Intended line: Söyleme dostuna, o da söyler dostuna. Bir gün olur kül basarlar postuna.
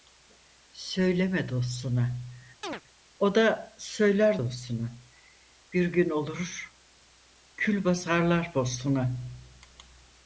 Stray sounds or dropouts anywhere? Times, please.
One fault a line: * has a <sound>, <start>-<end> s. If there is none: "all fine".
* has a chirp, 2.6-2.8 s